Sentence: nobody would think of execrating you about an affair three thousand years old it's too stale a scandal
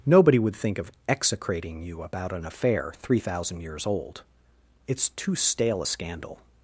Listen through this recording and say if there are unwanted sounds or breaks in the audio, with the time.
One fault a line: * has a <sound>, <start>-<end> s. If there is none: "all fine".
all fine